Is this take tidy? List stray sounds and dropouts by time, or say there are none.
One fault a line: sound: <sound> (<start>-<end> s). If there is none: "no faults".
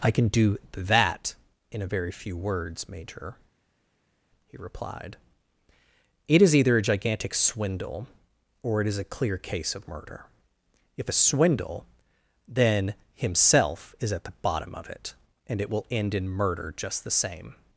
no faults